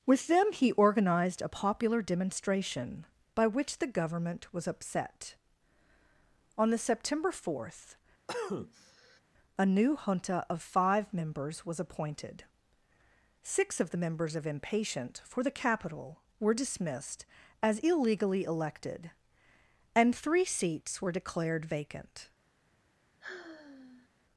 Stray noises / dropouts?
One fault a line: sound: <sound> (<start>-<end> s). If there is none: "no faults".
sound: cough (8.3-9.2 s)
sound: sigh (23.2-24.1 s)